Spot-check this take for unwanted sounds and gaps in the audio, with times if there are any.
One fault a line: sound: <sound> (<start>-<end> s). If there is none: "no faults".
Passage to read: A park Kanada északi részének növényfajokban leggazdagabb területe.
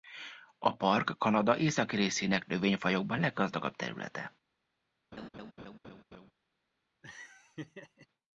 sound: laugh (5.1-6.3 s)
sound: laugh (7.0-8.1 s)